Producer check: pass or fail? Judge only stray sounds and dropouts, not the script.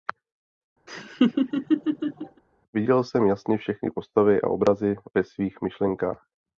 fail